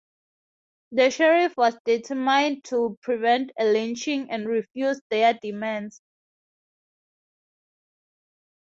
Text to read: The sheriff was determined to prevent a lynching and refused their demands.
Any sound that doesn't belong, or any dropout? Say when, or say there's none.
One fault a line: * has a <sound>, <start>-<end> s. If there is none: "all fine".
all fine